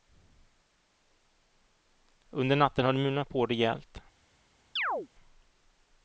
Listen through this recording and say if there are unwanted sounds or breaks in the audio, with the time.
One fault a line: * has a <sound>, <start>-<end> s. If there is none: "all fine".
* has a chirp, 4.8-5.1 s